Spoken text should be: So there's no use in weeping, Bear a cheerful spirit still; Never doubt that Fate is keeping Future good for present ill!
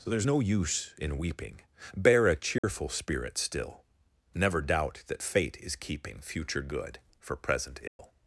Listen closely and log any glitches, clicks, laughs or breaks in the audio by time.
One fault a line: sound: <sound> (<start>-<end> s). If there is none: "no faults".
sound: dropout (2.6-2.6 s)
sound: dropout (7.9-8.0 s)